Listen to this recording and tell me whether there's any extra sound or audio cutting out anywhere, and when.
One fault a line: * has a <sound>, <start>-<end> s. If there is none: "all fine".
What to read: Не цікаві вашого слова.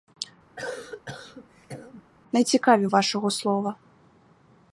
* has a cough, 0.6-2.0 s